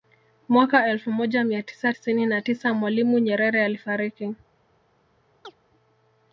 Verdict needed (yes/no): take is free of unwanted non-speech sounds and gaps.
no